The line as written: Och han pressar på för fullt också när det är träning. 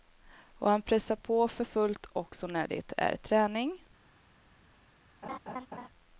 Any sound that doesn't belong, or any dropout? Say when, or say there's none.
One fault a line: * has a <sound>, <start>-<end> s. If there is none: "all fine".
* has a laugh, 5.2-5.9 s